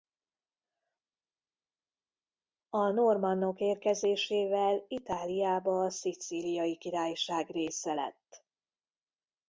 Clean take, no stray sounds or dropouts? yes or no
yes